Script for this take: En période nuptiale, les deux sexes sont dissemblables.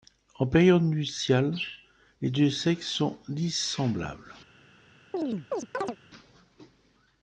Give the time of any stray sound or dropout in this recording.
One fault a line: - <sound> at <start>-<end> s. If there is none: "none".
- chirp at 5.1-6.0 s